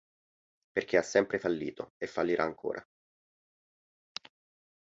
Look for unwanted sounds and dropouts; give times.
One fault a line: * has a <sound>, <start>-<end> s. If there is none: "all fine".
all fine